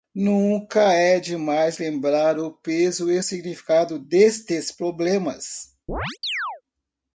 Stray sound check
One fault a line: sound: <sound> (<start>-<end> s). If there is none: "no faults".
sound: chirp (5.9-6.6 s)